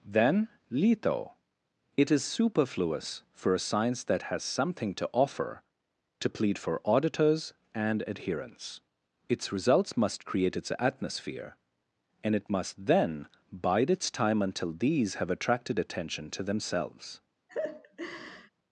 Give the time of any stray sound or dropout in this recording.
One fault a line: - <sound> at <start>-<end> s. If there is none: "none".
- laugh at 17.5-18.5 s